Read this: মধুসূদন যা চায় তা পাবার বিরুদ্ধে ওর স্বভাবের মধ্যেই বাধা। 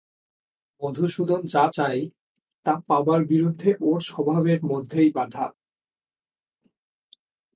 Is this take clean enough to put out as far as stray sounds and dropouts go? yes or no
yes